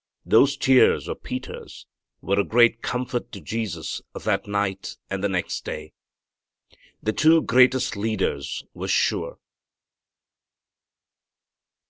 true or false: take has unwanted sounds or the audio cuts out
false